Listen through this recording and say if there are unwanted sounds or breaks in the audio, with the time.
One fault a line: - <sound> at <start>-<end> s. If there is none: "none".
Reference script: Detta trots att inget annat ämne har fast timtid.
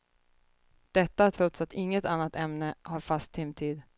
none